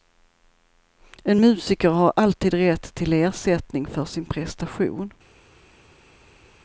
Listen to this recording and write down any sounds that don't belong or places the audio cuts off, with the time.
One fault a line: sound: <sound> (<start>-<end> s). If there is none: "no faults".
no faults